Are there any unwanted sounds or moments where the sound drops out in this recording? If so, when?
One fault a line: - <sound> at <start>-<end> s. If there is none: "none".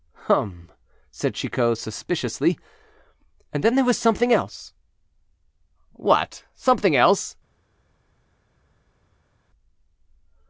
none